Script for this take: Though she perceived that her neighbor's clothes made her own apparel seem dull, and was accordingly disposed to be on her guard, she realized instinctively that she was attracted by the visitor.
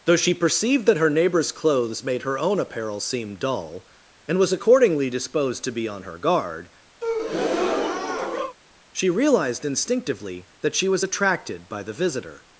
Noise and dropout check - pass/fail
fail